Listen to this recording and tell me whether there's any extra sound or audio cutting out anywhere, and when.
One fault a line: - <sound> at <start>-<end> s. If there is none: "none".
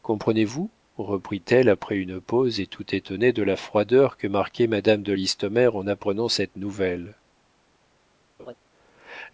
- laugh at 8.4-8.5 s